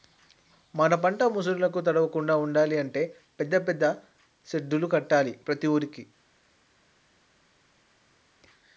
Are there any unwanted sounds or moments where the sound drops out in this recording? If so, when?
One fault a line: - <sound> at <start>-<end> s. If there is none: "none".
none